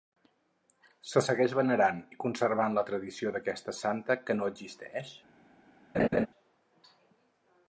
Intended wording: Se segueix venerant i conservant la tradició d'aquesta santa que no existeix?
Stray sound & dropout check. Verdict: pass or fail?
fail